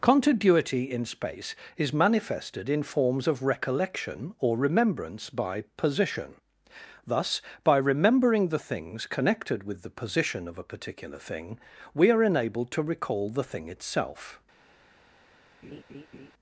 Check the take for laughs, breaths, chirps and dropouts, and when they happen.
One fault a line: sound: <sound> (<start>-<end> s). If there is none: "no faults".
sound: laugh (15.6-16.3 s)